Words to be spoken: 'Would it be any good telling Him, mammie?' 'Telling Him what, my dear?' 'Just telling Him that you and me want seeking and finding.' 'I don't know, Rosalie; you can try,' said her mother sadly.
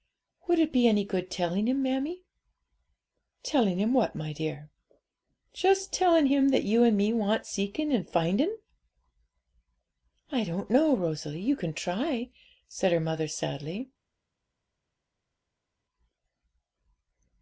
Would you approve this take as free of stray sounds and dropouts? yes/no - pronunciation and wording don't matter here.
yes